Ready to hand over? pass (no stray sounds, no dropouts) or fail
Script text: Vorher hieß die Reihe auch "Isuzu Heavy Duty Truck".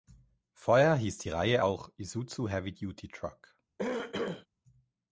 fail